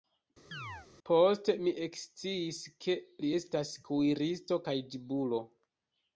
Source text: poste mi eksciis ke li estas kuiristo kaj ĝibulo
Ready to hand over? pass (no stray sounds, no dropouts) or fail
fail